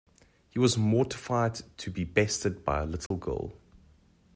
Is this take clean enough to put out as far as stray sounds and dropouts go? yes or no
no